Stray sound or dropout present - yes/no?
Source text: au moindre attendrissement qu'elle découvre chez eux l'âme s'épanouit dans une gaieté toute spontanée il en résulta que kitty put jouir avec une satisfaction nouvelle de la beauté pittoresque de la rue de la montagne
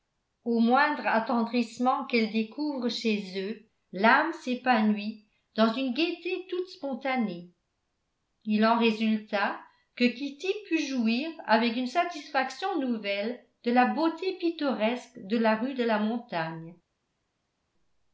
no